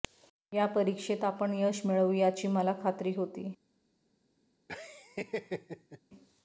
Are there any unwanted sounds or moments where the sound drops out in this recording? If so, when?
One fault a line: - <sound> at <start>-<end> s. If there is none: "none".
- laugh at 4.7-6.0 s